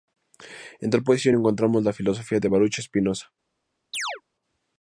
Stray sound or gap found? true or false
true